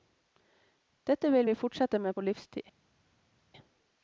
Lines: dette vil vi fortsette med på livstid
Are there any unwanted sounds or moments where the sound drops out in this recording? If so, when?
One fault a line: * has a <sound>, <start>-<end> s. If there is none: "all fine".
all fine